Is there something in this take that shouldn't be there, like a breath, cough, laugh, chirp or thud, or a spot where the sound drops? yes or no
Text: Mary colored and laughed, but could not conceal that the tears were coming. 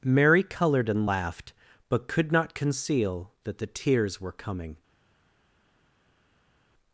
no